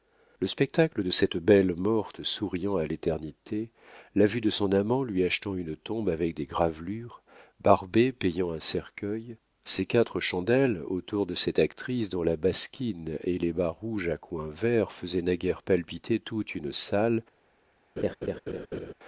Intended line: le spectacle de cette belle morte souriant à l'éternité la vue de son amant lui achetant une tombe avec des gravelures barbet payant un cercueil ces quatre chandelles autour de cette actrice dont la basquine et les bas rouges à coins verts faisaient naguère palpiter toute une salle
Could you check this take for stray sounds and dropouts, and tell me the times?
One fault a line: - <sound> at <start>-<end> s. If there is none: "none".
- laugh at 18.0-18.9 s